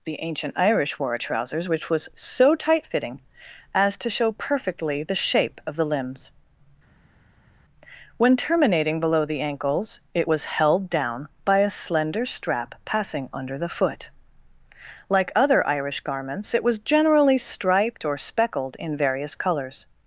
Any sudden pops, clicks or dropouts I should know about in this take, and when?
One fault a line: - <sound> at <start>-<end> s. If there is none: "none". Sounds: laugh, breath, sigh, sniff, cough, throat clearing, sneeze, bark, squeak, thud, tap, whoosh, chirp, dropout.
none